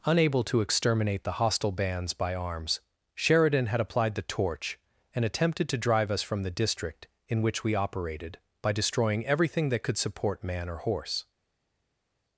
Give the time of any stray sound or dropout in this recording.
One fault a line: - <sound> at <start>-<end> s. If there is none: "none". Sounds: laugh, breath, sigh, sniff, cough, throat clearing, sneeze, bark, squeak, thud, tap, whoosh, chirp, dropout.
none